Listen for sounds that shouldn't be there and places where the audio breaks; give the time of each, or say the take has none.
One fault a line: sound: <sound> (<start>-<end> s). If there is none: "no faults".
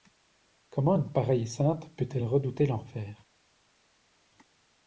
no faults